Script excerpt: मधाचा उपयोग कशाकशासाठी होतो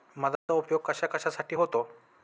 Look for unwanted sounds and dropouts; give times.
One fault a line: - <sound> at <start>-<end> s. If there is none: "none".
- dropout at 0.4-0.5 s